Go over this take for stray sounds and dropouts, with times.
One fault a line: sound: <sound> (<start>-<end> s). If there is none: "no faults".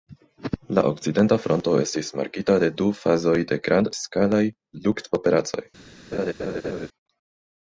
sound: laugh (6.1-6.9 s)